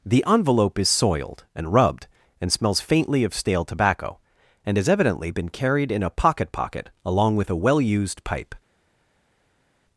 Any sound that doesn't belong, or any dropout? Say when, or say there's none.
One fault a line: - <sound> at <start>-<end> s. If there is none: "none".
none